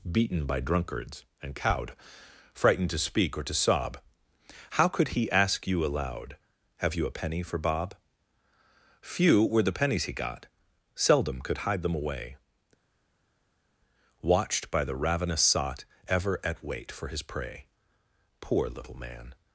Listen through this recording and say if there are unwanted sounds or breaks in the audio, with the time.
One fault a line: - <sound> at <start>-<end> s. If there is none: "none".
none